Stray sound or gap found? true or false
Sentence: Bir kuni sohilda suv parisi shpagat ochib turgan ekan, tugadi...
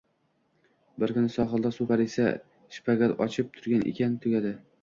false